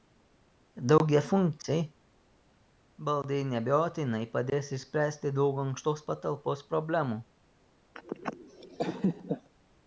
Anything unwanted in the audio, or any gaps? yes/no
yes